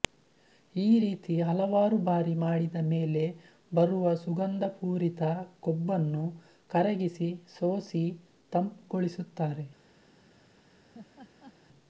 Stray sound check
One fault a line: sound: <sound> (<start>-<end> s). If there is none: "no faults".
sound: laugh (10.9-11.5 s)